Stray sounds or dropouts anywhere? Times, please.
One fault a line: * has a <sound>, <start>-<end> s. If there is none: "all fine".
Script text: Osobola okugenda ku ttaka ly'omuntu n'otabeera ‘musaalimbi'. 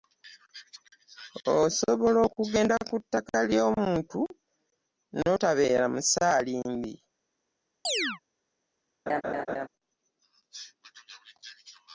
* has a chirp, 7.8-8.2 s
* has a laugh, 9.1-9.7 s